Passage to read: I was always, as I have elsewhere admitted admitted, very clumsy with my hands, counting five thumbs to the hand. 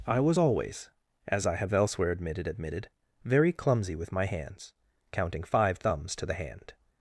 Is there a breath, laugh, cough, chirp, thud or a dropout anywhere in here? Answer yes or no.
no